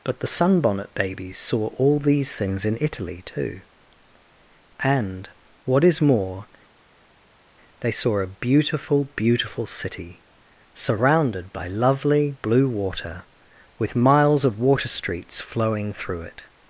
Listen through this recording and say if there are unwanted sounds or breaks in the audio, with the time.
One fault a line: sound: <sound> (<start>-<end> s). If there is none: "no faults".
no faults